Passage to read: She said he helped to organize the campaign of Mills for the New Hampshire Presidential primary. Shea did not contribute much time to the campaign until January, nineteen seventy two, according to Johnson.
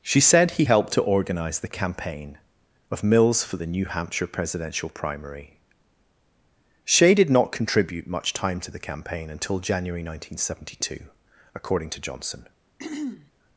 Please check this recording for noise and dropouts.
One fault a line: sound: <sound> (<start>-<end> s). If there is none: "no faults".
sound: throat clearing (12.8-13.3 s)